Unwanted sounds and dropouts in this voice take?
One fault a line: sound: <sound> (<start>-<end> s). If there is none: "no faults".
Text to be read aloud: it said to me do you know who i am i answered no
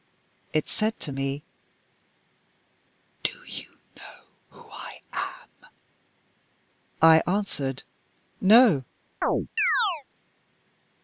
sound: chirp (9.2-10.0 s)